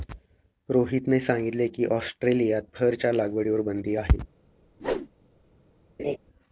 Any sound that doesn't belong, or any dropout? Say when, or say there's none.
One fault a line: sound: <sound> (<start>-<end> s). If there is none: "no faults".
sound: whoosh (4.8-5.1 s)
sound: laugh (6.0-6.2 s)